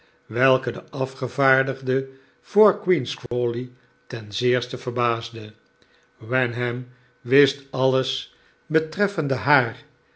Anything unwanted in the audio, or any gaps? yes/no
yes